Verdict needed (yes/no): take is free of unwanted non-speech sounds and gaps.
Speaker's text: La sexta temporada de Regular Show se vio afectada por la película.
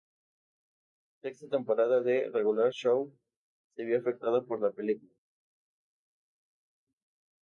yes